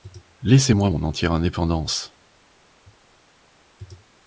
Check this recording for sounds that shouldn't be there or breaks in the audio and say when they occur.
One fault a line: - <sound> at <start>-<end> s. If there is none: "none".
none